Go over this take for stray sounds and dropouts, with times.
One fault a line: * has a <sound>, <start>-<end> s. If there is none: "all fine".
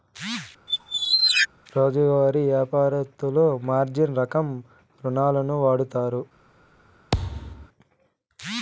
* has a squeak, 0.7-1.5 s
* has a thud, 7.1-7.7 s